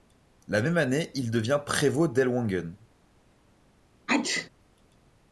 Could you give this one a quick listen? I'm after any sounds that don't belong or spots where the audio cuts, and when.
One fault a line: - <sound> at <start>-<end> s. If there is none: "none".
- sneeze at 4.1-4.5 s